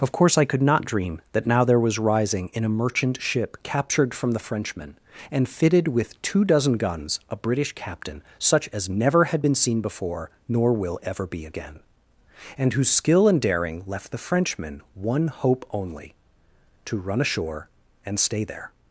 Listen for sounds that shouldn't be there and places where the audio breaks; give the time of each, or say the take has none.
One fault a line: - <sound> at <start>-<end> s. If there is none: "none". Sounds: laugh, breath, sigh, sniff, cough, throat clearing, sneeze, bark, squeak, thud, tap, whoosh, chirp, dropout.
none